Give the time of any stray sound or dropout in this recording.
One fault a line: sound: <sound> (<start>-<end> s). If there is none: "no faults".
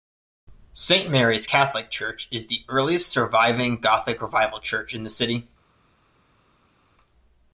no faults